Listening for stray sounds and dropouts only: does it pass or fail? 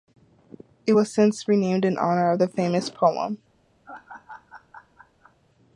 fail